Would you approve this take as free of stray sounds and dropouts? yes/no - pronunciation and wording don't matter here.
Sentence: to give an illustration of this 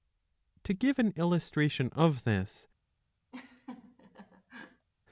no